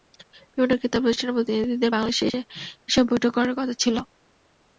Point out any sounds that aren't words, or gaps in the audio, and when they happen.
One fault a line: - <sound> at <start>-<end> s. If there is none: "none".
none